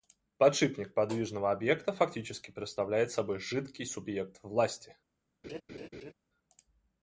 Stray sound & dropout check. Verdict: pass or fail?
fail